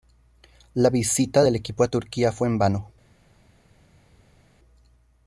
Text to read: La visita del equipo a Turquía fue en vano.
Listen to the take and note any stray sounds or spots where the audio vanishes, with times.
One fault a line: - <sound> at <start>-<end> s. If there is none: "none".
none